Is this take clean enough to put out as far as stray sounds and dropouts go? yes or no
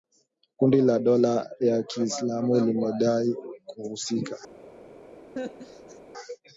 no